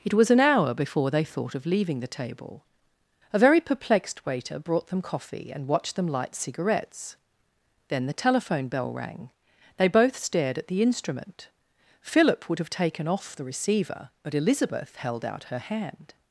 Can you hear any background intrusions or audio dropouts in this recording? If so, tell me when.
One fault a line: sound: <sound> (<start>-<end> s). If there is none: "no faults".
no faults